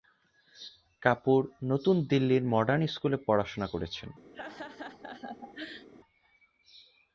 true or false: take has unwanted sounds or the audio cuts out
true